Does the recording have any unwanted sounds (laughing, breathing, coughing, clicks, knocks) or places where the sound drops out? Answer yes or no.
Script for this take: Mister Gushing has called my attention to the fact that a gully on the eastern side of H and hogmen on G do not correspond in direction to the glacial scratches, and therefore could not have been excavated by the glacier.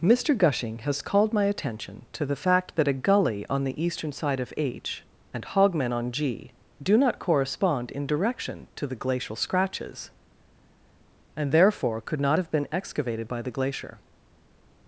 no